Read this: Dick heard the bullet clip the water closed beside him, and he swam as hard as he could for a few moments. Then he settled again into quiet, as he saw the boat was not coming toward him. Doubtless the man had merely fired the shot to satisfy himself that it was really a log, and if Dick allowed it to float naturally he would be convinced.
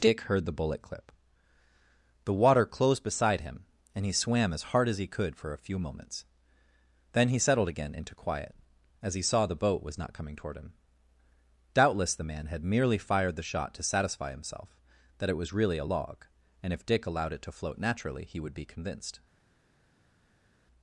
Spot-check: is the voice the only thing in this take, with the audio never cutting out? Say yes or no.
yes